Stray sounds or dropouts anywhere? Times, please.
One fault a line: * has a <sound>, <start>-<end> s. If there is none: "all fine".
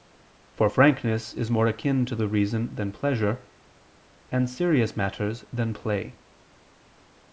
all fine